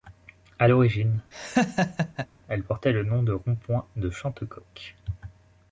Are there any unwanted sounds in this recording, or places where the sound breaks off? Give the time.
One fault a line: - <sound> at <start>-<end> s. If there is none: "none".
- laugh at 1.3-2.3 s